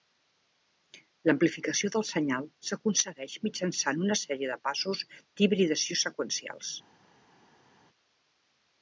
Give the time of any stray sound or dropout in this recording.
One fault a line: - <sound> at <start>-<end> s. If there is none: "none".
none